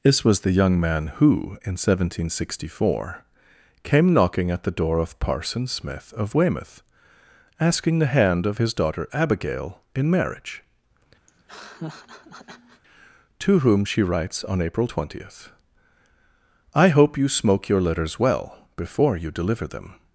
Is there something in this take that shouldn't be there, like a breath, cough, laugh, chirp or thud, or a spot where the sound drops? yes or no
yes